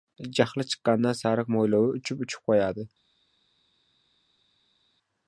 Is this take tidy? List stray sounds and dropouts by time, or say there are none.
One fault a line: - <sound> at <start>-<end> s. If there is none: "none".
none